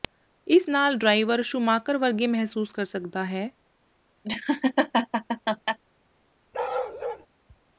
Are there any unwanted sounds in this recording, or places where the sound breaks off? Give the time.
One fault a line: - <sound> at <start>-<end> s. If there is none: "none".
- laugh at 4.2-5.8 s
- bark at 6.5-7.3 s